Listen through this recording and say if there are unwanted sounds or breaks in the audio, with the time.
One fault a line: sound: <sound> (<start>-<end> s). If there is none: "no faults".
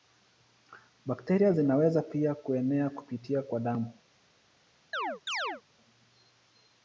sound: chirp (4.9-5.6 s)